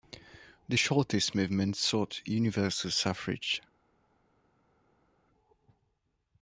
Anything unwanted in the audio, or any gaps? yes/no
no